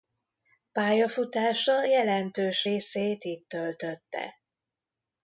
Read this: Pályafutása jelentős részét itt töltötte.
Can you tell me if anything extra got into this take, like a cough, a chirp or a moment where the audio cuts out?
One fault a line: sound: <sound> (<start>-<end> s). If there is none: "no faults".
no faults